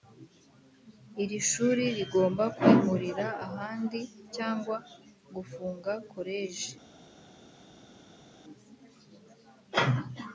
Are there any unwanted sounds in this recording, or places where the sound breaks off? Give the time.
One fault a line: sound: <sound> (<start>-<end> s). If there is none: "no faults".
no faults